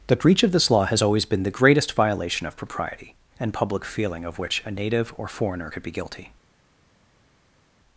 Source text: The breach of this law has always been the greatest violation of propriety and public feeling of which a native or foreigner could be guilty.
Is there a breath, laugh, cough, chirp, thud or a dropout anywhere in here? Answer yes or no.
no